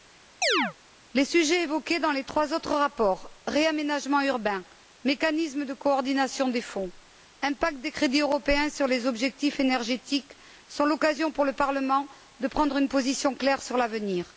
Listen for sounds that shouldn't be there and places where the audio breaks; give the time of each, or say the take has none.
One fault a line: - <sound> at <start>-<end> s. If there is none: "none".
- chirp at 0.4-0.7 s